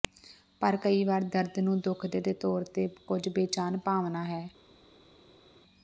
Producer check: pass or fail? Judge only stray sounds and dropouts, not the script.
pass